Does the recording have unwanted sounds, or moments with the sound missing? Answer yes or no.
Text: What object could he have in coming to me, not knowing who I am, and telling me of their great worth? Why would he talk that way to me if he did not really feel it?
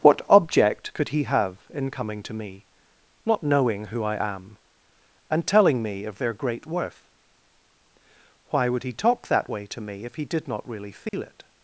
yes